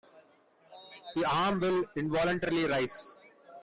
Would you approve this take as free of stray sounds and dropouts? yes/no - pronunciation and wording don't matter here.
yes